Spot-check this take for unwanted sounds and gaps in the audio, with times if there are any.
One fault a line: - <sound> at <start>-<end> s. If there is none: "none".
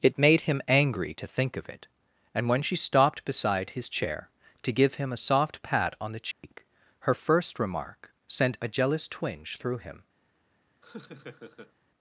- dropout at 6.3-6.4 s
- laugh at 10.8-11.7 s